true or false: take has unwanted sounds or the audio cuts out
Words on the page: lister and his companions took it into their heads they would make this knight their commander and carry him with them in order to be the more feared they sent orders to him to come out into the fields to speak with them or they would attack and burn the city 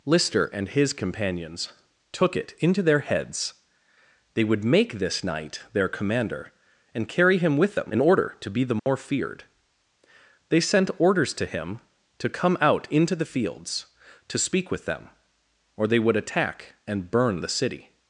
true